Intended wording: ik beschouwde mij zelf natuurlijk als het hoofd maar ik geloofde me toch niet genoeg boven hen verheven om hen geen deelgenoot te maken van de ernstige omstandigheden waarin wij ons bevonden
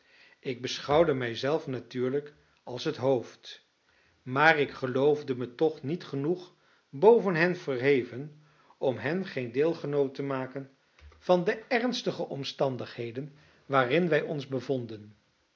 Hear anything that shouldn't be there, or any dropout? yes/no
no